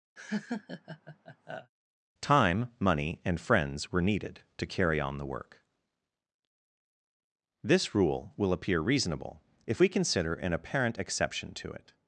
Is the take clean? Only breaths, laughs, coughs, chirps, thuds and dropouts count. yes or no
no